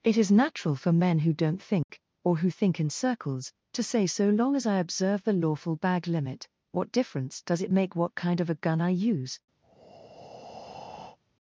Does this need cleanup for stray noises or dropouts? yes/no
yes